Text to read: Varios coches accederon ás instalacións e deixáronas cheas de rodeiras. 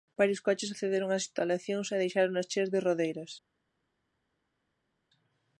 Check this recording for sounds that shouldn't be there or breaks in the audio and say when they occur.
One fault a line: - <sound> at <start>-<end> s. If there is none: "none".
none